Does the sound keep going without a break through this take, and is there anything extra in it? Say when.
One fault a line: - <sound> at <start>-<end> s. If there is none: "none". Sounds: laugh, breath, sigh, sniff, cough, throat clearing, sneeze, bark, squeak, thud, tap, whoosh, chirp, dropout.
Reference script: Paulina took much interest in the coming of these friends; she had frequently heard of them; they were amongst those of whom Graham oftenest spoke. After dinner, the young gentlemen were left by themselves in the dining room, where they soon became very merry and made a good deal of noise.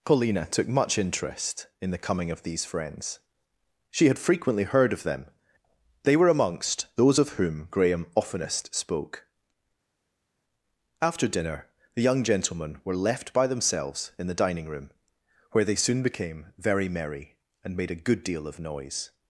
none